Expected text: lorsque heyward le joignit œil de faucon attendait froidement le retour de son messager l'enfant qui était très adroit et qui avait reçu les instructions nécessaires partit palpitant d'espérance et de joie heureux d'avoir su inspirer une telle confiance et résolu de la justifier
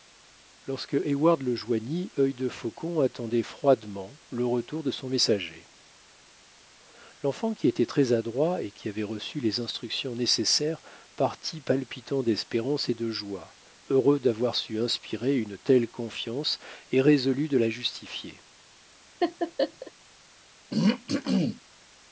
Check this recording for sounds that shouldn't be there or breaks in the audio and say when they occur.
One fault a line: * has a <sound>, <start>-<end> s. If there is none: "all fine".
* has a laugh, 19.2-19.9 s
* has a throat clearing, 20.7-21.6 s